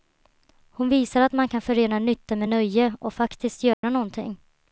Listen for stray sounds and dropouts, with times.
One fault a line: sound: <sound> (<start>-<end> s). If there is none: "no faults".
sound: dropout (3.7-3.8 s)